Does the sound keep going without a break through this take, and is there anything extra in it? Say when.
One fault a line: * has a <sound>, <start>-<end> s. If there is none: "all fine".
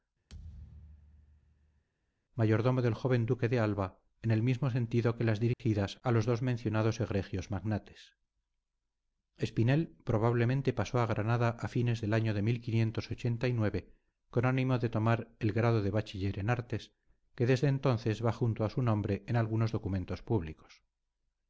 * has a thud, 0.3-1.8 s
* has a dropout, 5.5-5.6 s